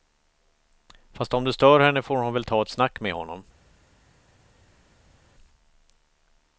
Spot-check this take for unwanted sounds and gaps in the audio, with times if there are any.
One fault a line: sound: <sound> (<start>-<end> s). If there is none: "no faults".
no faults